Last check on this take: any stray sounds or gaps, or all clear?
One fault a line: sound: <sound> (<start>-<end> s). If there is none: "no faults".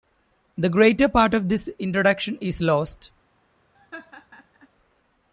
sound: laugh (3.7-4.7 s)